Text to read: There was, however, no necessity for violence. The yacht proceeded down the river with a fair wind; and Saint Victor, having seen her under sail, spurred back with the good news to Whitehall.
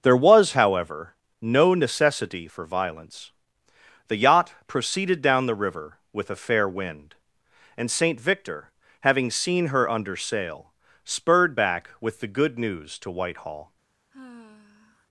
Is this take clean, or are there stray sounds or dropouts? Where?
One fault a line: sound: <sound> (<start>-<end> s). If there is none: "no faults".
sound: sigh (14.1-15.1 s)